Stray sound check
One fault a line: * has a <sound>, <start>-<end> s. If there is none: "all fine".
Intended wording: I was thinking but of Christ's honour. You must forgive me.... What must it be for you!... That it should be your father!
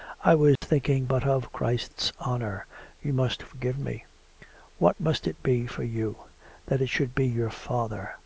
* has a dropout, 0.6-0.6 s